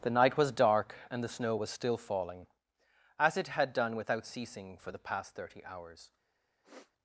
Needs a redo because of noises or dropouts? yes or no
yes